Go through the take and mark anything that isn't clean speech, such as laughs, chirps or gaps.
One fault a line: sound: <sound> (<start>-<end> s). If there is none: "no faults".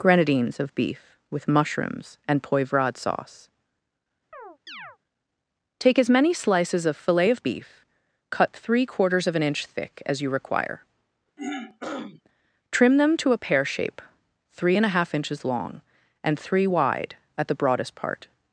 sound: chirp (4.3-5.0 s)
sound: throat clearing (11.4-12.2 s)